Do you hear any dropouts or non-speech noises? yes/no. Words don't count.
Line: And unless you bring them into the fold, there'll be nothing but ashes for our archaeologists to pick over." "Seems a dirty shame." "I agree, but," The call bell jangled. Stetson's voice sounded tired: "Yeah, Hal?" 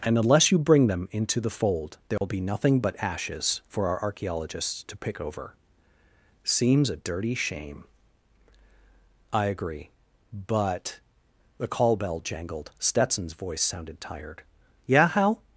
yes